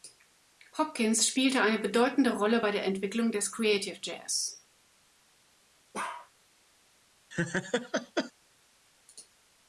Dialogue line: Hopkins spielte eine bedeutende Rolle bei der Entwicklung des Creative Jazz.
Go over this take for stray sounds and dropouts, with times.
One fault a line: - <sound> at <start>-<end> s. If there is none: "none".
- bark at 5.9-6.3 s
- laugh at 7.3-8.3 s